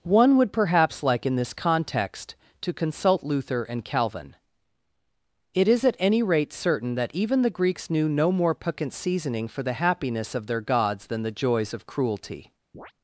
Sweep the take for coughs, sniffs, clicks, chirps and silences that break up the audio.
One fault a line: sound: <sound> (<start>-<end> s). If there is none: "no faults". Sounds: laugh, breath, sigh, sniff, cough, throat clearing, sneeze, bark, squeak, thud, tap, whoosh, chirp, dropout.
sound: chirp (12.7-12.9 s)